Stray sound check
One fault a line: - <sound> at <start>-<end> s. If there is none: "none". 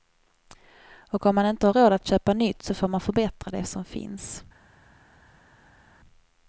none